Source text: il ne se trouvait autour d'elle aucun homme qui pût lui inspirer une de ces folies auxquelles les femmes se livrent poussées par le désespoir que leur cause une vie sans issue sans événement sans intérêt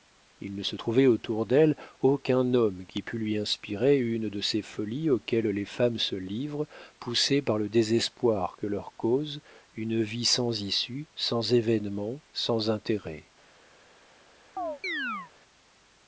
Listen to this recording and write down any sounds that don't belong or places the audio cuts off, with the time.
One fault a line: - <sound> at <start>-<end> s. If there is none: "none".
- chirp at 14.6-15.3 s